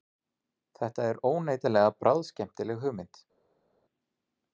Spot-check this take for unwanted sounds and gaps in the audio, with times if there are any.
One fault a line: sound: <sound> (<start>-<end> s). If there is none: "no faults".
no faults